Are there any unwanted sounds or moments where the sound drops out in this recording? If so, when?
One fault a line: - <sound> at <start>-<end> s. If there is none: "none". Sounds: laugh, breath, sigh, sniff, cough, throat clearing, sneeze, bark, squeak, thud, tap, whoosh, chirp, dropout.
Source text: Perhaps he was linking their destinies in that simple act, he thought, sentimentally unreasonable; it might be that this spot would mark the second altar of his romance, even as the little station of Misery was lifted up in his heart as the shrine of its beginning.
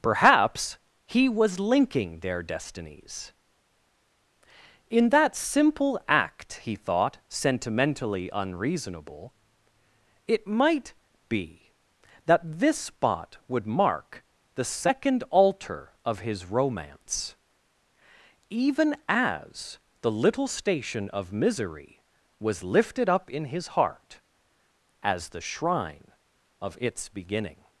none